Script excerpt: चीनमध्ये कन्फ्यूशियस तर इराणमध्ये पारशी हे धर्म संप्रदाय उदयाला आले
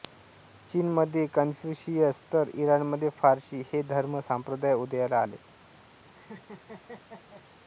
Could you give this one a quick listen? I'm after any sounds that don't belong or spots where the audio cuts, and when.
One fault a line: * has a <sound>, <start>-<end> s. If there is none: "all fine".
* has a laugh, 6.1-7.5 s